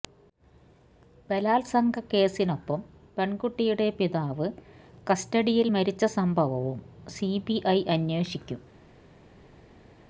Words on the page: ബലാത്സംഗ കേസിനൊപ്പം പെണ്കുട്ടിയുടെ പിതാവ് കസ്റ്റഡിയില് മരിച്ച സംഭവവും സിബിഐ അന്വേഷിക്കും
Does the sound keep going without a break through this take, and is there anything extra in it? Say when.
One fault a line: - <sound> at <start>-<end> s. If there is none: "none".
none